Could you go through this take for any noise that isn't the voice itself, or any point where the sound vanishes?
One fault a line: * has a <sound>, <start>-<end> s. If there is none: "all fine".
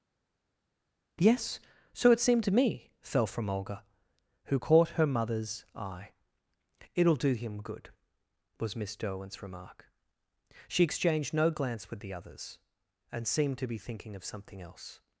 all fine